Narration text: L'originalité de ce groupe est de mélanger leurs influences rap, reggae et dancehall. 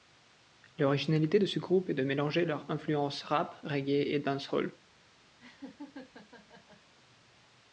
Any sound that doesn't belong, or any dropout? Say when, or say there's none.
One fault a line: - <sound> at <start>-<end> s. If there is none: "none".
- laugh at 5.4-6.9 s